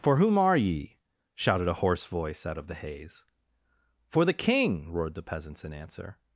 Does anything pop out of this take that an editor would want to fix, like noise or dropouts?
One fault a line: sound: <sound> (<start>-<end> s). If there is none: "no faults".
no faults